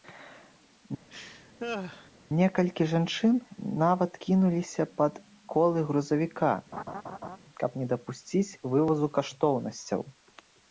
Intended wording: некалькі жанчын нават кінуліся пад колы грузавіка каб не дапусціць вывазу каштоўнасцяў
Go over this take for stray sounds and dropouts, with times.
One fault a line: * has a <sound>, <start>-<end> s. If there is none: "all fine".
* has a laugh, 1.1-2.1 s
* has a laugh, 6.7-7.4 s